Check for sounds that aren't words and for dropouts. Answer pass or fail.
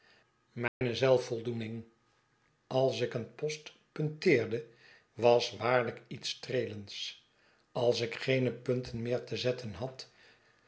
fail